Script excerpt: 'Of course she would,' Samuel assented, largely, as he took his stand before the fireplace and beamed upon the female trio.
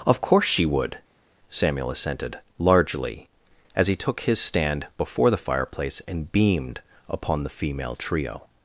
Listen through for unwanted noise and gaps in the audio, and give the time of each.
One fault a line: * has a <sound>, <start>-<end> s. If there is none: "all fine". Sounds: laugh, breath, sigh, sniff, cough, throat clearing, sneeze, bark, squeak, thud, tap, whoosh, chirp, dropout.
all fine